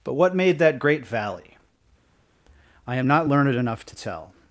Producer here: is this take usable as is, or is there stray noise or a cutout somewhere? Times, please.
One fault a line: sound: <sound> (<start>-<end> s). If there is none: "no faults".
no faults